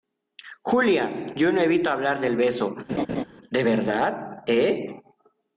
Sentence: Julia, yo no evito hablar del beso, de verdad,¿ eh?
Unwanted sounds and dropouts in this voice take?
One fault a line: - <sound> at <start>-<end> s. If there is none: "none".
- laugh at 2.9-3.2 s